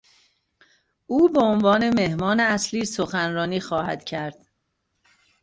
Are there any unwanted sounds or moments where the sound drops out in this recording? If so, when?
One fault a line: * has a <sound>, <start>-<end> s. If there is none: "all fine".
all fine